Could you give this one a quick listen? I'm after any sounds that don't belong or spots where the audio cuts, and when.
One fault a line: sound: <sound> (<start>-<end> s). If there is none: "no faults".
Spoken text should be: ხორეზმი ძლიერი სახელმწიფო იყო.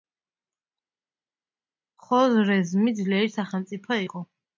no faults